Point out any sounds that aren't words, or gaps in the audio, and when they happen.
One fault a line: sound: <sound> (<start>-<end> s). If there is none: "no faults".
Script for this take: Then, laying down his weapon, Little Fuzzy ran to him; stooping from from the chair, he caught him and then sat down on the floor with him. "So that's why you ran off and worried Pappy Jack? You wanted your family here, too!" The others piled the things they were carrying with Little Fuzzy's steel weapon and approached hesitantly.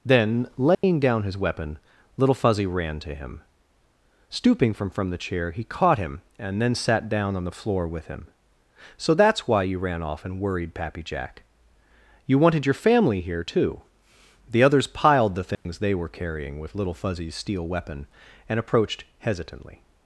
sound: dropout (0.7-0.8 s)
sound: dropout (15.5-15.7 s)